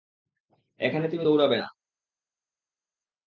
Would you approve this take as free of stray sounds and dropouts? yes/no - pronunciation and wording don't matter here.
yes